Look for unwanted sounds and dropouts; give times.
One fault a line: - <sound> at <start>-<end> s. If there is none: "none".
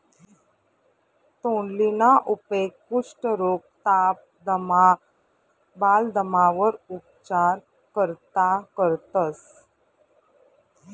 none